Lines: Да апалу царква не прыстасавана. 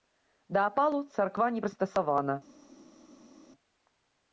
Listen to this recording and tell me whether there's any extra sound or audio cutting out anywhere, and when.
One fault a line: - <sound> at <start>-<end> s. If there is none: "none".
none